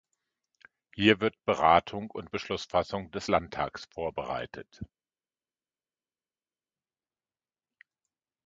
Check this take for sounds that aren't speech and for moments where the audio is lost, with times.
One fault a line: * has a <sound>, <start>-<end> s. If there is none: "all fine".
all fine